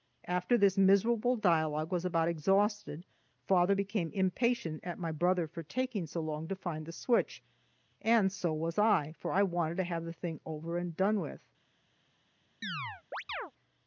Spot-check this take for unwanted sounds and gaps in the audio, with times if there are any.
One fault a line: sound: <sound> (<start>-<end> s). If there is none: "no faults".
sound: chirp (12.6-13.5 s)